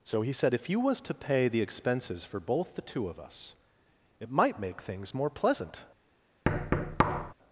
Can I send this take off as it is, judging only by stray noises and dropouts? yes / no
no